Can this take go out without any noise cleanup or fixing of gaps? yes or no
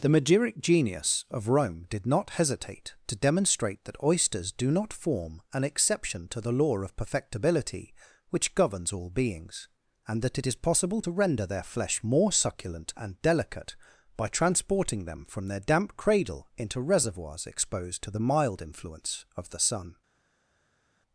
yes